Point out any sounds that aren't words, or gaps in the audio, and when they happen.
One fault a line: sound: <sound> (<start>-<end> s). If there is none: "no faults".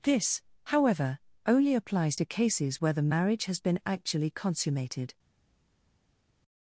no faults